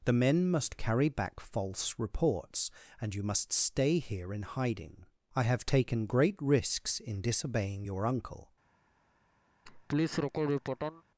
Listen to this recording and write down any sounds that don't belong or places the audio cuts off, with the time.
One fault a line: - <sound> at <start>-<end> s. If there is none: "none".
- laugh at 9.6-11.0 s